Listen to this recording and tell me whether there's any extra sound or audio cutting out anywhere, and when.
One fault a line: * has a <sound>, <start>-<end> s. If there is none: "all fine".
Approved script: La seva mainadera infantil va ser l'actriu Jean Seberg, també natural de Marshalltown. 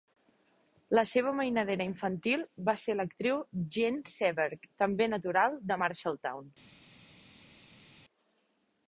all fine